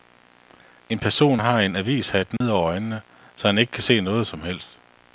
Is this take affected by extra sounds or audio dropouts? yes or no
yes